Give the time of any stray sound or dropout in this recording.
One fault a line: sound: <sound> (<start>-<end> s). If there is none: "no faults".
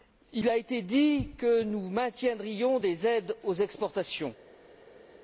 no faults